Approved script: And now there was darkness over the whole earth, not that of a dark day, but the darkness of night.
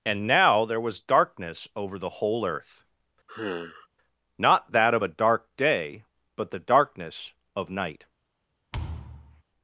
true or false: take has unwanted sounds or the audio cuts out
true